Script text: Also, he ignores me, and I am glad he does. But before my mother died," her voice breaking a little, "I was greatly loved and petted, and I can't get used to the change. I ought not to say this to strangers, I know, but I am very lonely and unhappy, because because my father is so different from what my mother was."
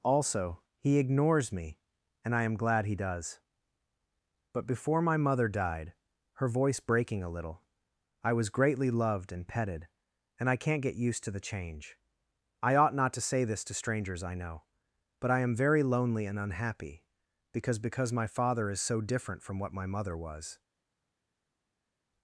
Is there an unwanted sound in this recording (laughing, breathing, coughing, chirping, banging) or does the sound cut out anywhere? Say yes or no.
no